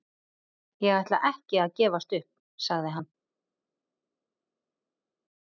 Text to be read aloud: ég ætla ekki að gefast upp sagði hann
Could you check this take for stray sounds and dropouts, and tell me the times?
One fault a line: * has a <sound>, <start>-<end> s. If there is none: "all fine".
all fine